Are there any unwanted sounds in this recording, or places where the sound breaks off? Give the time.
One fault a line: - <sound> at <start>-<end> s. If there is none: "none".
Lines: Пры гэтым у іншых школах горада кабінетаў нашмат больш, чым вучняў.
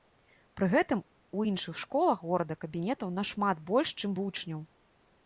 none